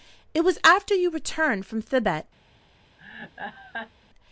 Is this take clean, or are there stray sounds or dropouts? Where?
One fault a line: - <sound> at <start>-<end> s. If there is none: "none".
- laugh at 3.0-3.9 s